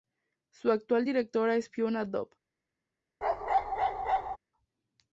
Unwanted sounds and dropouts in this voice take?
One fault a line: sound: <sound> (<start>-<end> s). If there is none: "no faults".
sound: bark (3.2-4.4 s)